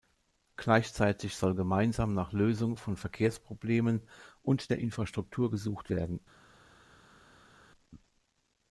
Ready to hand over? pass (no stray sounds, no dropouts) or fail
pass